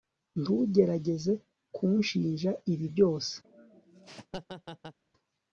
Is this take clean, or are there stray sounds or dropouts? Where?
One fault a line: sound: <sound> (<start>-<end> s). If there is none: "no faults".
sound: laugh (3.4-5.0 s)